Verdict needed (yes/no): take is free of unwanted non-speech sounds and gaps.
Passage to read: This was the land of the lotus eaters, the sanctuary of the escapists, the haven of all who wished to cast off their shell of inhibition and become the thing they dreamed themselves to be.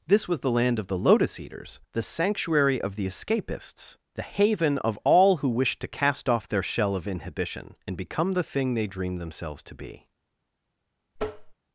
no